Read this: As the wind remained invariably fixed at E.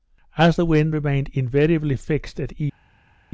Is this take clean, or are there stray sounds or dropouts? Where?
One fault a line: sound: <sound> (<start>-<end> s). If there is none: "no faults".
no faults